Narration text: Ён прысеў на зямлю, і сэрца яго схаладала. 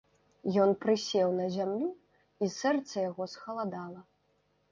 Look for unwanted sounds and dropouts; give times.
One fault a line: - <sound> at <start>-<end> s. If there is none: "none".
none